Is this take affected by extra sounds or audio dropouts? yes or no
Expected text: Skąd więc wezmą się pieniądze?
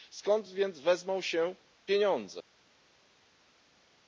no